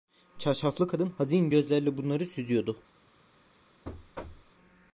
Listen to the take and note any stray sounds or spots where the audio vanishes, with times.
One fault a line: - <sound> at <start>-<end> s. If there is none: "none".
- thud at 3.8-4.5 s